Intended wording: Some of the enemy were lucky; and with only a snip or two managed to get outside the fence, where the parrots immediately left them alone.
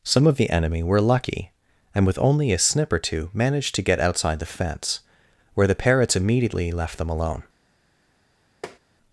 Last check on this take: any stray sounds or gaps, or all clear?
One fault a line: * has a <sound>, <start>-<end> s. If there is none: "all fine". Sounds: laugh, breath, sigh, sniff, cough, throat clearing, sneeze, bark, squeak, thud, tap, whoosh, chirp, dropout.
* has a tap, 8.6-8.8 s